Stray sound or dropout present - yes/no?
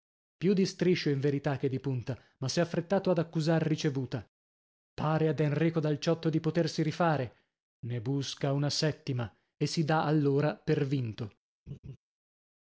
yes